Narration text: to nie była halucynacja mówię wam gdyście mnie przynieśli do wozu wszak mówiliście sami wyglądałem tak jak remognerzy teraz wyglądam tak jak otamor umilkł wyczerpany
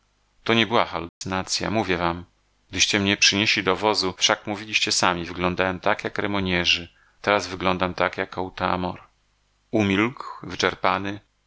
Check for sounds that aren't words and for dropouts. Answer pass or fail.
fail